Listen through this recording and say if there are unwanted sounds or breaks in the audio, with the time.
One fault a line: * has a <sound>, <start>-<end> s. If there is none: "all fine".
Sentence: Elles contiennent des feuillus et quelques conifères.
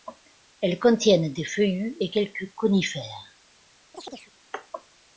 * has a chirp, 3.9-4.3 s